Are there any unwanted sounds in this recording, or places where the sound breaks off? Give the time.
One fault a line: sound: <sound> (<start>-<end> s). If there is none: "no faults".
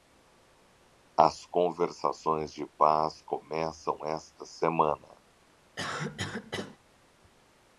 sound: cough (5.8-6.8 s)